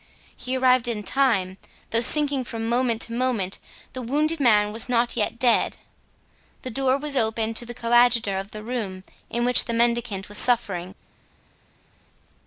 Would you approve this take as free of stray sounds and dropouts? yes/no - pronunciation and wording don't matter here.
yes